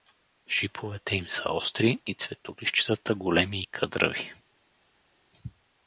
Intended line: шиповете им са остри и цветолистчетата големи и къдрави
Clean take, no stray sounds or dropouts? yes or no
yes